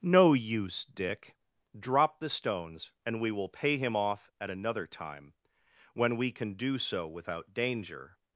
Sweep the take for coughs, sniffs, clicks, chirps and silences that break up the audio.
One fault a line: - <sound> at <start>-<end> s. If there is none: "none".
none